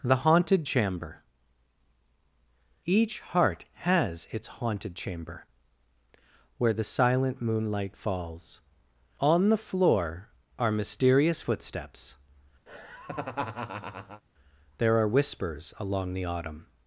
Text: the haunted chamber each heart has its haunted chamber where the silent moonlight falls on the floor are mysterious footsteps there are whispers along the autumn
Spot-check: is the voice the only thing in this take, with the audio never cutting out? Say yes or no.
no